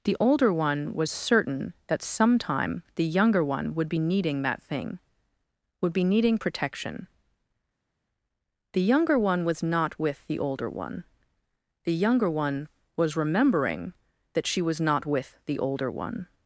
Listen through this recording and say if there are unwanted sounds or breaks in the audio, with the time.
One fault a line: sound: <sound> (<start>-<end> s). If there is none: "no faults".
no faults